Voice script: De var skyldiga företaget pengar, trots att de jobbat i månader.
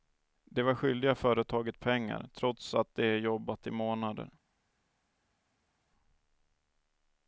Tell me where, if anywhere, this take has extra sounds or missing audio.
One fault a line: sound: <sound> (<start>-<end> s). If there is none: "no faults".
no faults